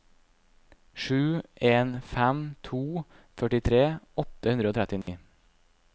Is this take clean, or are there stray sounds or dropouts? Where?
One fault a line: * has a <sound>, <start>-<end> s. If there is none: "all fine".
* has a dropout, 5.0-5.1 s